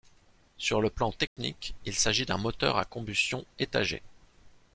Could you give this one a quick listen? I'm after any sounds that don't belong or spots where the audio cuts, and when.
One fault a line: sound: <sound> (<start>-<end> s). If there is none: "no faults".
sound: dropout (1.3-1.4 s)